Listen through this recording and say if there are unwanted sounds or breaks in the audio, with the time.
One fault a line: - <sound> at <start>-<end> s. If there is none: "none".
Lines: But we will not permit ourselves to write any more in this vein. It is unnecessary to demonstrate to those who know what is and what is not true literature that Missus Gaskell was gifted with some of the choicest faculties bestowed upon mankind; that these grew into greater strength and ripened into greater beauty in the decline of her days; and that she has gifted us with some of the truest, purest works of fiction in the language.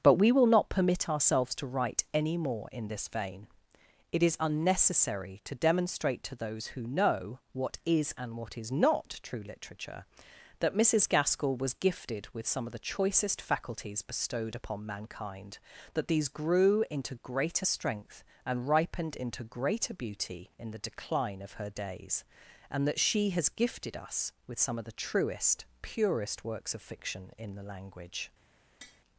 - tap at 28.8-29.0 s